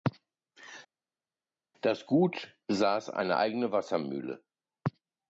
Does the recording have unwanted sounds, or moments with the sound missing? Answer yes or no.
no